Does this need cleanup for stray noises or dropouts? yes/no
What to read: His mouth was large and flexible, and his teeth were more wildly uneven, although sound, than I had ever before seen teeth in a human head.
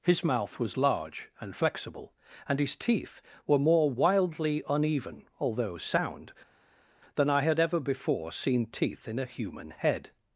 no